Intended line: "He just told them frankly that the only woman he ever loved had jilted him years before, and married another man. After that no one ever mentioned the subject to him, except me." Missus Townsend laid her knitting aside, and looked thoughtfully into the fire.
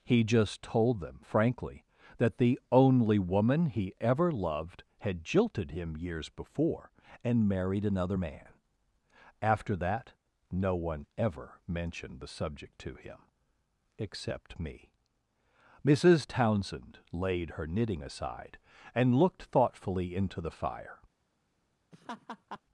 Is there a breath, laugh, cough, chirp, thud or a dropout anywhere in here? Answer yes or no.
yes